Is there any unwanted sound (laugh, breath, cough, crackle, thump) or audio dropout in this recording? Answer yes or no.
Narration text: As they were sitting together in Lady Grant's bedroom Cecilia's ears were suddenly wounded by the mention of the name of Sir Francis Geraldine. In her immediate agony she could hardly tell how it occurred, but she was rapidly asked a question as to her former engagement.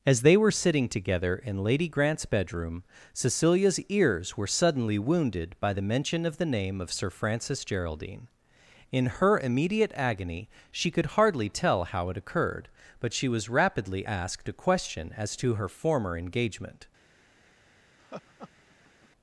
yes